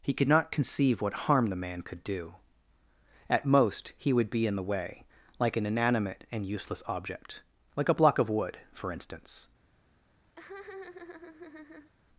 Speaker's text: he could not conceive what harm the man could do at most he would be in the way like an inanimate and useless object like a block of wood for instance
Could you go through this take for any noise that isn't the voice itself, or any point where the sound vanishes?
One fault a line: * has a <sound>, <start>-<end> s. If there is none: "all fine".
* has a laugh, 10.4-11.9 s